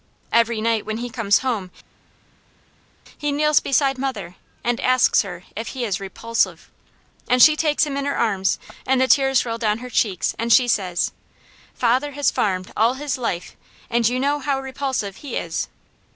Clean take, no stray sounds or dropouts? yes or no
yes